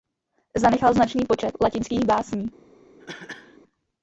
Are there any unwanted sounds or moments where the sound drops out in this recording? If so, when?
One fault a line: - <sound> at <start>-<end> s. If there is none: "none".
- cough at 3.0-3.6 s